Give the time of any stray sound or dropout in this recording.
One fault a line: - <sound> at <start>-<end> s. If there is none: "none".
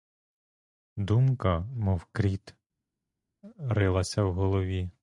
none